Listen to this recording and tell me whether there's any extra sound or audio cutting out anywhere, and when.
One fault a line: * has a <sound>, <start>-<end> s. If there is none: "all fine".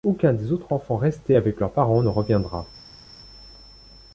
all fine